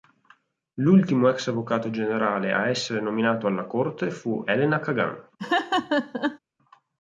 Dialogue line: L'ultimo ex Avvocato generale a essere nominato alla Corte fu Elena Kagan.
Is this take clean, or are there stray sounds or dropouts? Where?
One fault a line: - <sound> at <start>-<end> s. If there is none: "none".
- laugh at 5.4-6.4 s